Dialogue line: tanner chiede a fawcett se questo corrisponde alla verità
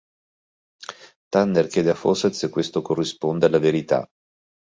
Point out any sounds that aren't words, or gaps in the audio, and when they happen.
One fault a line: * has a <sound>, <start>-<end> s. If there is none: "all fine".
all fine